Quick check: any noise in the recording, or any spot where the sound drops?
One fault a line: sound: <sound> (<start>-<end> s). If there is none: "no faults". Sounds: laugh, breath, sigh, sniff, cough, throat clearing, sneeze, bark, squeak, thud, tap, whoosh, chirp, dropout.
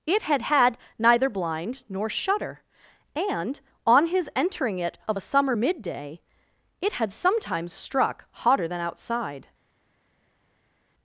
no faults